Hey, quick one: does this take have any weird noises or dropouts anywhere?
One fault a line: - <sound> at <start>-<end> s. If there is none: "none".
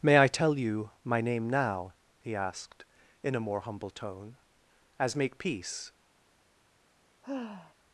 - sigh at 7.2-7.7 s